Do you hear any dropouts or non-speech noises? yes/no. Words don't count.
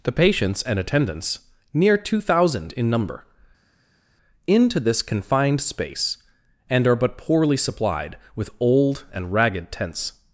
no